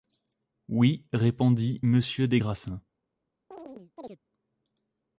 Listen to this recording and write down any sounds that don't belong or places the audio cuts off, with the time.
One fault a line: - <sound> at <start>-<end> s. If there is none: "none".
- chirp at 3.5-4.2 s